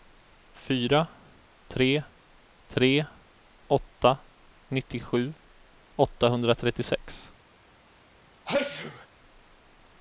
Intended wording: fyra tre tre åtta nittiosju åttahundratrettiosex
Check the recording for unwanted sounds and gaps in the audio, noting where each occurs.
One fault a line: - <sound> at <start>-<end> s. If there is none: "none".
- sneeze at 8.5-9.1 s